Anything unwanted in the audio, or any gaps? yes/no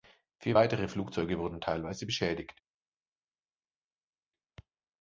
no